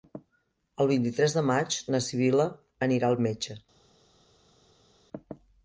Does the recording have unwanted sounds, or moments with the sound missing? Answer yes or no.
no